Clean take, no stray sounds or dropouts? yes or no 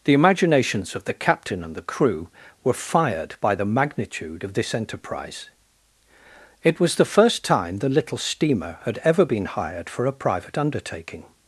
yes